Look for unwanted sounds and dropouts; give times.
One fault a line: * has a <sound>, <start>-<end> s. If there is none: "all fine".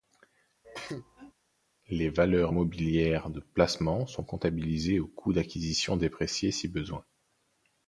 * has a cough, 0.6-1.3 s